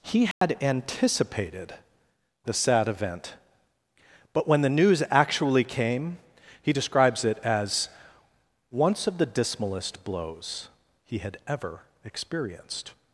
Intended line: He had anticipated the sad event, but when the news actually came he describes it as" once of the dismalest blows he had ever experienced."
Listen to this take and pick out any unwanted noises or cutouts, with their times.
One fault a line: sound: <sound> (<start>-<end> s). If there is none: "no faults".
sound: dropout (0.3-0.4 s)